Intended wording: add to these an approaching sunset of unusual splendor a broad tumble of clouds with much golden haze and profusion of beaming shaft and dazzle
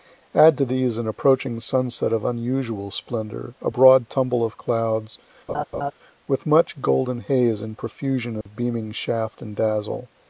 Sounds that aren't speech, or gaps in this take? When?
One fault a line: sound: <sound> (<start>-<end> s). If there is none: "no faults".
sound: laugh (5.5-5.9 s)
sound: dropout (8.4-8.5 s)